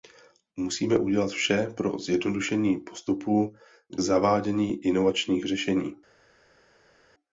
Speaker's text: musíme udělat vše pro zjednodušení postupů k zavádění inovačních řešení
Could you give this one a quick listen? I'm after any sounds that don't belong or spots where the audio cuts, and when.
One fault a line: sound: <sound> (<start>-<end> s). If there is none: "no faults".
no faults